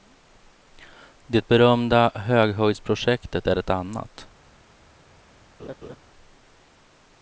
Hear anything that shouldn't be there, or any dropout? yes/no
yes